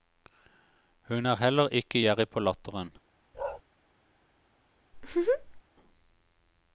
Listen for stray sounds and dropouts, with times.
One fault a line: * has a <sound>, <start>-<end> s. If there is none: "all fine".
* has a bark, 3.3-3.6 s
* has a laugh, 4.9-5.6 s